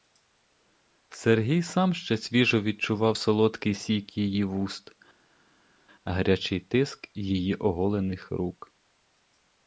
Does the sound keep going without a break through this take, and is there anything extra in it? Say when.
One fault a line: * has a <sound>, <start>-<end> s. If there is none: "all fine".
all fine